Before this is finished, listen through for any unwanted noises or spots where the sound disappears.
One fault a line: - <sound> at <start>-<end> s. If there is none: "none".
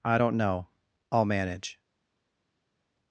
none